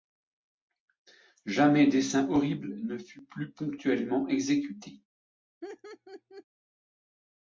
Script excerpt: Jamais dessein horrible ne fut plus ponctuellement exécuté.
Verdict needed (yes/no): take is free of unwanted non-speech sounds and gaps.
no